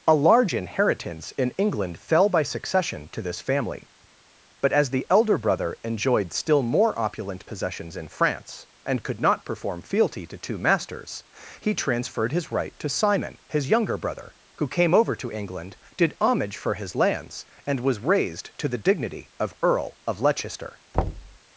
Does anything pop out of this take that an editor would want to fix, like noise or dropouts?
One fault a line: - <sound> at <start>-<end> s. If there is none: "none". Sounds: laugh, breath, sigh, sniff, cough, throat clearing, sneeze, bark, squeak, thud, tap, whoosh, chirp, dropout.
- thud at 20.9-21.4 s